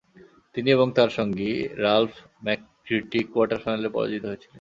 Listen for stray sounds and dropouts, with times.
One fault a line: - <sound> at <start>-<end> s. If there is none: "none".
none